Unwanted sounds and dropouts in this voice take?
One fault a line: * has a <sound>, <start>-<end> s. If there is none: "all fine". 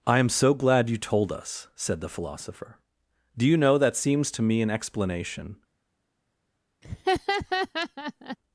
* has a laugh, 6.8-8.4 s